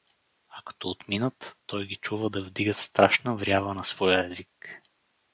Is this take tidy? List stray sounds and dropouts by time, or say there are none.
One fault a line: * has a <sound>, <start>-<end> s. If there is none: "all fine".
all fine